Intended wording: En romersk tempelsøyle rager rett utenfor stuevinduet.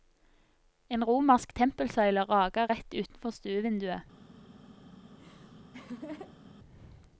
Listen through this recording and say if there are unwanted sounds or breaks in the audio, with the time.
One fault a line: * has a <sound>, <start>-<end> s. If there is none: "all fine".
* has a laugh, 5.1-6.6 s